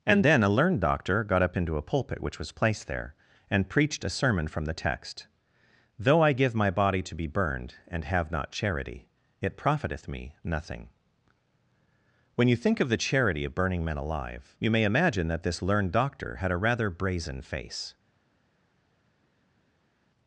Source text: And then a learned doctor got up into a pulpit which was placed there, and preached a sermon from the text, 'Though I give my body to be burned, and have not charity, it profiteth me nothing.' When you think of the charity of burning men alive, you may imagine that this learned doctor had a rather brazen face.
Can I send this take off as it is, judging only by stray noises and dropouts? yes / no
yes